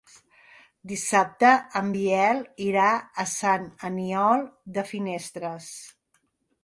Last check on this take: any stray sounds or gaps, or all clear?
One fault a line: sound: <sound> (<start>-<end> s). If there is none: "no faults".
no faults